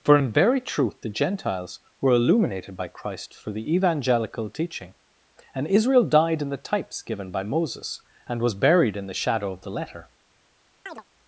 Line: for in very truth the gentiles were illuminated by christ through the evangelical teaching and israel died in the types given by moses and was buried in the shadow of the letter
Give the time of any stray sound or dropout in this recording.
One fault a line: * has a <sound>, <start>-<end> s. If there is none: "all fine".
* has a chirp, 10.9-11.0 s